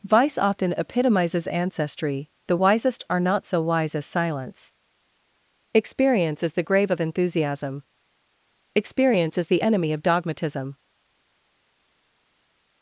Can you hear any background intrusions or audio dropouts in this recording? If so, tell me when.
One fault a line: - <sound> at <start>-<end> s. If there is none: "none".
none